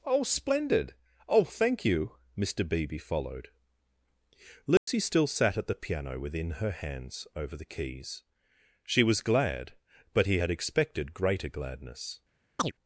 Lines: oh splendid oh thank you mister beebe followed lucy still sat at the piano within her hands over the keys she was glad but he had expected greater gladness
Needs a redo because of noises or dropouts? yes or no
yes